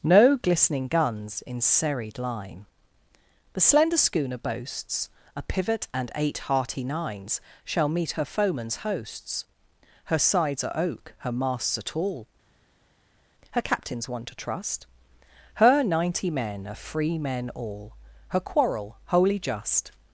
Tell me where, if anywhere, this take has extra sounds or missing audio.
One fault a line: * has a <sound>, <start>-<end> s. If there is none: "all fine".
all fine